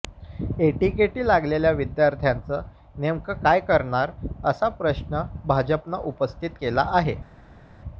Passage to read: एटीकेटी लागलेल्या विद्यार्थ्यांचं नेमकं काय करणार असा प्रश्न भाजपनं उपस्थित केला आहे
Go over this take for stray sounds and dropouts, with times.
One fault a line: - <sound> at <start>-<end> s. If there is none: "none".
none